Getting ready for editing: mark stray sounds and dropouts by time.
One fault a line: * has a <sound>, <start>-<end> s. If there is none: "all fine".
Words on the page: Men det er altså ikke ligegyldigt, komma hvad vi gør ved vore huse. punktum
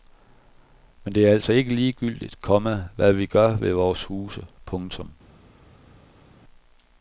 all fine